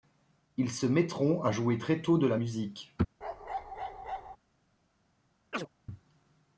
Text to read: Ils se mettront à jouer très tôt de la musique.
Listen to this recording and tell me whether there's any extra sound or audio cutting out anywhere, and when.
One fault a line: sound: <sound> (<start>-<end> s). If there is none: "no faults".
sound: bark (3.2-4.4 s)
sound: chirp (5.5-5.7 s)